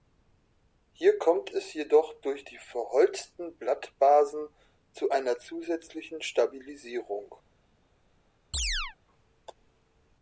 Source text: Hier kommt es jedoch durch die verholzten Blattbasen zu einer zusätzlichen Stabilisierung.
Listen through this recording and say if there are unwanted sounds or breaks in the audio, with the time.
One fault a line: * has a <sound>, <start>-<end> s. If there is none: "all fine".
* has a chirp, 8.5-9.0 s